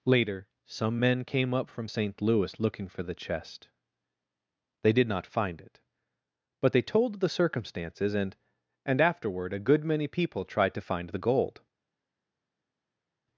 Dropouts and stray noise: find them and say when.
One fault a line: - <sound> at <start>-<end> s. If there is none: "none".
none